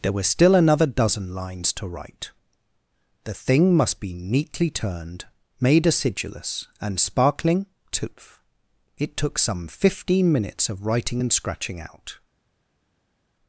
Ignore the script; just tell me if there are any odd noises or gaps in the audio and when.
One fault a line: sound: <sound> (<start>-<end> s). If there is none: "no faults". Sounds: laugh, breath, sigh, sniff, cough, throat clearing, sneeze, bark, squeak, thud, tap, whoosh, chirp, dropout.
no faults